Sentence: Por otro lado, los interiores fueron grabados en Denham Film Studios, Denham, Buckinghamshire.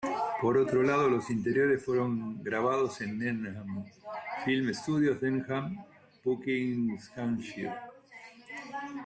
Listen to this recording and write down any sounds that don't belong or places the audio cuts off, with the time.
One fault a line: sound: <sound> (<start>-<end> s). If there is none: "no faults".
no faults